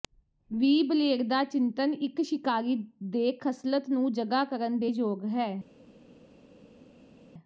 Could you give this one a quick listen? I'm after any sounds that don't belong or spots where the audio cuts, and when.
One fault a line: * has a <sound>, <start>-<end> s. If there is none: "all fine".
all fine